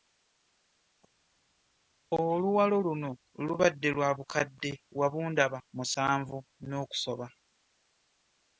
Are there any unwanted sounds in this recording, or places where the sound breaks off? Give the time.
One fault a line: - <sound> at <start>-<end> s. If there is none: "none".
none